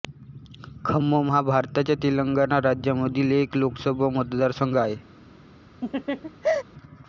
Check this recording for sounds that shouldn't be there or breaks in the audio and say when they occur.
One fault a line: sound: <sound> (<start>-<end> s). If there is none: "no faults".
sound: laugh (5.8-6.6 s)